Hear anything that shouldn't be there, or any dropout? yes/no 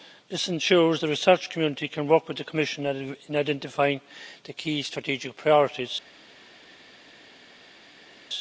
no